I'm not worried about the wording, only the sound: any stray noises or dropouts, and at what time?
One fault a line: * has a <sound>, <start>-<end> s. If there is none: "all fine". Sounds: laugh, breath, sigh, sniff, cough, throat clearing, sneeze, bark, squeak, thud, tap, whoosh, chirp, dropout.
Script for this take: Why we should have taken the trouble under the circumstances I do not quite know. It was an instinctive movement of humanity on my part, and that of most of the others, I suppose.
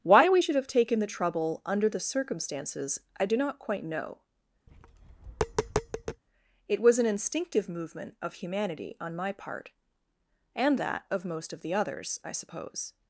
* has a tap, 4.7-6.2 s